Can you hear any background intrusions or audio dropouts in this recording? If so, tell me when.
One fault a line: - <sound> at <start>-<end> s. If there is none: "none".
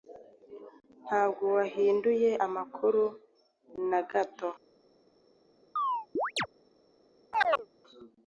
- chirp at 5.8-6.5 s
- chirp at 7.3-7.7 s